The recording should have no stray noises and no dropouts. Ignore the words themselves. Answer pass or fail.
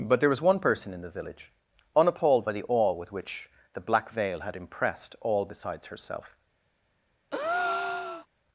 fail